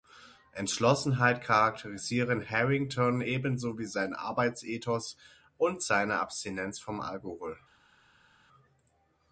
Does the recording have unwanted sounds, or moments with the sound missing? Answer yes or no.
no